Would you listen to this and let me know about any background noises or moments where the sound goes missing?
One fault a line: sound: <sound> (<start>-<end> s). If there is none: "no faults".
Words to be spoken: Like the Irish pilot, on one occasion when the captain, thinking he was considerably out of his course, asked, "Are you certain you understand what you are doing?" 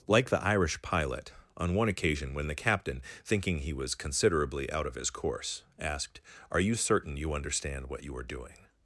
no faults